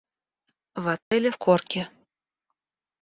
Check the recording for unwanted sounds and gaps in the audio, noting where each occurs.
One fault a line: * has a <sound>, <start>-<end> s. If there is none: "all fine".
* has a dropout, 1.0-1.1 s